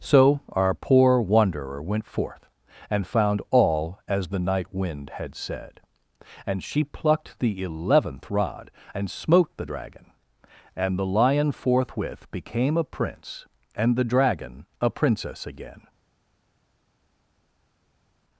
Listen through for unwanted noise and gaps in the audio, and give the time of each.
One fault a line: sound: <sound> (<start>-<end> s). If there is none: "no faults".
no faults